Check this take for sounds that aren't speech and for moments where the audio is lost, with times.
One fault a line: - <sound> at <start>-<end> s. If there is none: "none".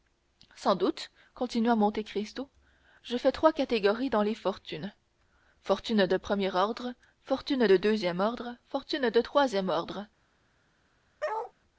- bark at 11.2-11.5 s